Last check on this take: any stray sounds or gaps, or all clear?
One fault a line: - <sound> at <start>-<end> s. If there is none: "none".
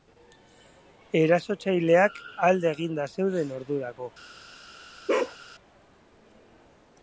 - bark at 5.1-5.4 s